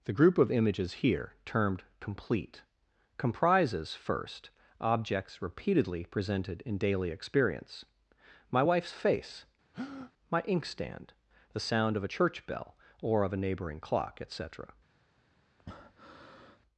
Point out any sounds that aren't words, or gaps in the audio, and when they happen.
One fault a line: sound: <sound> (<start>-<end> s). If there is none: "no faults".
sound: breath (9.7-10.1 s)
sound: breath (15.6-16.6 s)